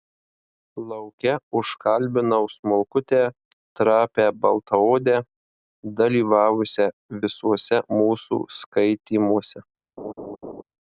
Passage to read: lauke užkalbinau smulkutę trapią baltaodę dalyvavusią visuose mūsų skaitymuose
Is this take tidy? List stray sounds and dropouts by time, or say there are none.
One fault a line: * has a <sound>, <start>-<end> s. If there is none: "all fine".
* has a laugh, 10.0-10.6 s